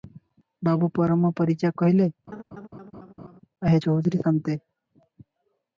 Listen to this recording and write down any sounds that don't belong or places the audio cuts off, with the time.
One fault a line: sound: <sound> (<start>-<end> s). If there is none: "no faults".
sound: laugh (2.3-3.4 s)